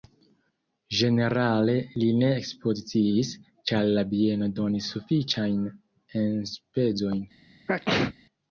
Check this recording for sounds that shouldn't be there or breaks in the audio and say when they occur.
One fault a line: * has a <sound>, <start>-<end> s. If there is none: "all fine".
* has a sneeze, 7.7-8.1 s